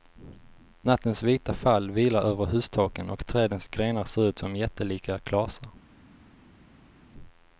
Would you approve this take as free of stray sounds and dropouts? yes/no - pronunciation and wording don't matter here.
yes